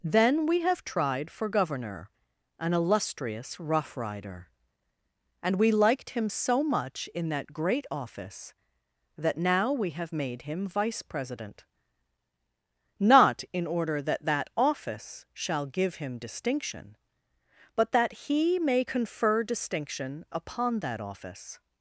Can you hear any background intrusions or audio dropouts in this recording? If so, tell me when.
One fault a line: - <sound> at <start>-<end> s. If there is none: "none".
none